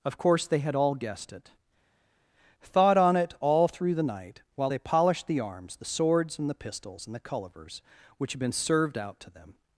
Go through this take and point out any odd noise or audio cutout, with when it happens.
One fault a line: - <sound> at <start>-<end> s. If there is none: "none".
none